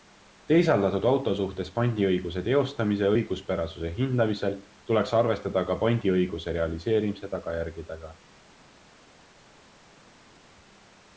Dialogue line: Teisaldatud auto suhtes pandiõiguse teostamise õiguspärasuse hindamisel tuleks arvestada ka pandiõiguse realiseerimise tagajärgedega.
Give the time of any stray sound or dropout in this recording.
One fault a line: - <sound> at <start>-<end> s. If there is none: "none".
none